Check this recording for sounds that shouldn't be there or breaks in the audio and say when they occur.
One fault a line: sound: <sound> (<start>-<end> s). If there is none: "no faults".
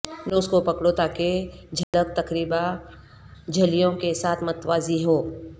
sound: dropout (1.8-1.9 s)